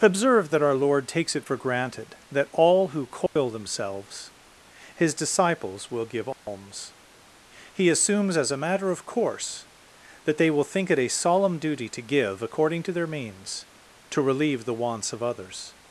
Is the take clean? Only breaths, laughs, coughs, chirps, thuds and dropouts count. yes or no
no